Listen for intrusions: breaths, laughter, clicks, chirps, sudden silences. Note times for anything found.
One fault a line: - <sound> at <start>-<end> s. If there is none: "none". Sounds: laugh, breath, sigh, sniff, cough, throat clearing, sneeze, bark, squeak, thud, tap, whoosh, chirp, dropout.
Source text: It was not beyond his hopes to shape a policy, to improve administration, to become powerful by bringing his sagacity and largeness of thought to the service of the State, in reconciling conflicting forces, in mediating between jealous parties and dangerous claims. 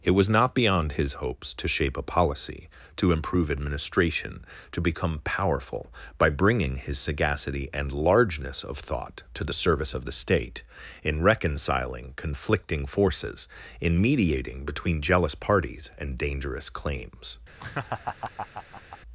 - laugh at 17.6-19.0 s